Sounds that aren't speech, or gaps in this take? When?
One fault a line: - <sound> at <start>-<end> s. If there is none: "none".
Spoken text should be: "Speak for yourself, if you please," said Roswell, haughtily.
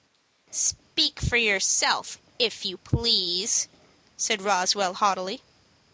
none